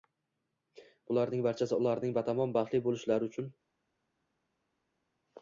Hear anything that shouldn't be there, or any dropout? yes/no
no